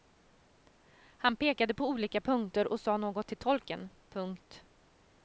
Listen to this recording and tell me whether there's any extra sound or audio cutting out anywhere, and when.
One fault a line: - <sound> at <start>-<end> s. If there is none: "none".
none